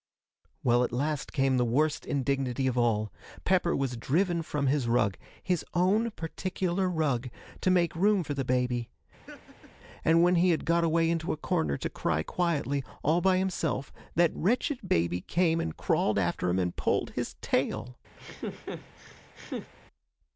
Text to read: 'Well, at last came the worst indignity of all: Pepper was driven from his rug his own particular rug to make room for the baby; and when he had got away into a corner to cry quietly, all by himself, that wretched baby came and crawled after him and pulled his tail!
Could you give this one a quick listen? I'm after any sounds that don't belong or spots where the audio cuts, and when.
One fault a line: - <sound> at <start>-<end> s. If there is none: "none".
- laugh at 9.3-9.7 s
- laugh at 18.2-19.7 s